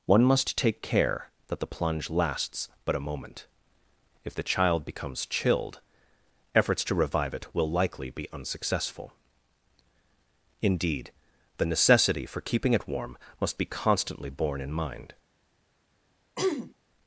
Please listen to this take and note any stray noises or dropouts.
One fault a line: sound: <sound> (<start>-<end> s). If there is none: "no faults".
sound: throat clearing (16.4-16.7 s)